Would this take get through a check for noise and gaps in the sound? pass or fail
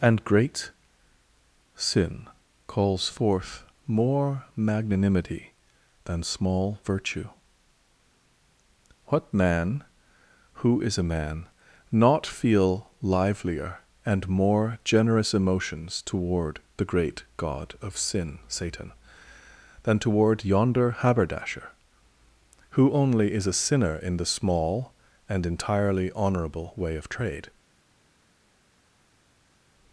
pass